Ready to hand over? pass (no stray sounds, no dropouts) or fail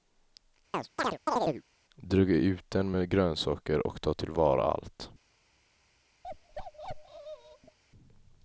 fail